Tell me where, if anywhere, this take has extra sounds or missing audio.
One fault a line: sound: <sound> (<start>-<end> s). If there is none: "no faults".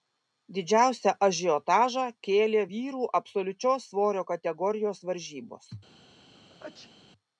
sound: sneeze (6.3-6.9 s)